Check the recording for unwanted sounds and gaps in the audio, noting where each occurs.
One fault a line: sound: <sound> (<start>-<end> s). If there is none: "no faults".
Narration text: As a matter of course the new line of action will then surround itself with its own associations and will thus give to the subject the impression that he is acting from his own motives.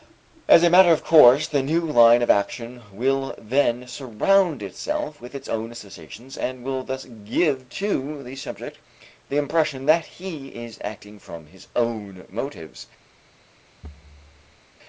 sound: thud (13.8-14.6 s)